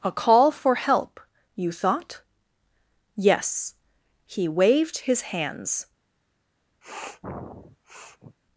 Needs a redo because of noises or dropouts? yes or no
yes